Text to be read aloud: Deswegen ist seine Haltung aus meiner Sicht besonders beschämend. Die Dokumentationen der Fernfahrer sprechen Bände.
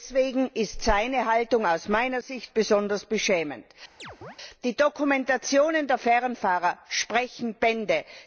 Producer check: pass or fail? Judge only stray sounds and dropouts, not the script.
fail